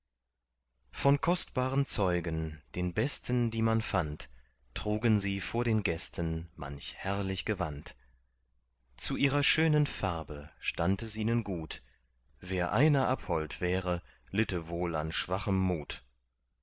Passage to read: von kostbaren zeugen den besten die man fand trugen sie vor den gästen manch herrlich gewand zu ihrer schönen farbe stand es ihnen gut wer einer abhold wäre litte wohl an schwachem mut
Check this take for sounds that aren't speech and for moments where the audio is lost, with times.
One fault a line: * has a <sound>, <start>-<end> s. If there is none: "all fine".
all fine